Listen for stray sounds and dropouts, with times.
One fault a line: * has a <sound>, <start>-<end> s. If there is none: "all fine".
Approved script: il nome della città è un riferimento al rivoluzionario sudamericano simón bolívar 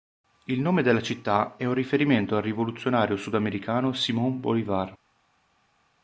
all fine